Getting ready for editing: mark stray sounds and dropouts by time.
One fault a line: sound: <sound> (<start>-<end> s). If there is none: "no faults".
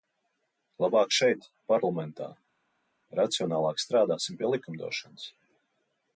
no faults